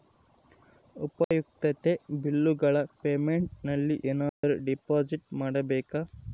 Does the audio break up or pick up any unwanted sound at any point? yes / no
yes